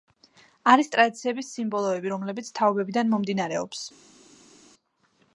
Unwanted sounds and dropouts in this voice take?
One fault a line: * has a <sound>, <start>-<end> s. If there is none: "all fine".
all fine